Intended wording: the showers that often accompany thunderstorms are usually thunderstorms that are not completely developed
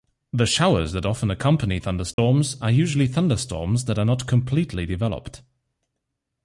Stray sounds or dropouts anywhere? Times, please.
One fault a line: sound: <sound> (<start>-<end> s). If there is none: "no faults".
sound: dropout (2.1-2.2 s)